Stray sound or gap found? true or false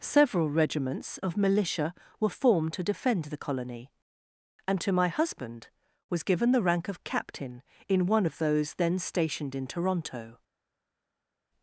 false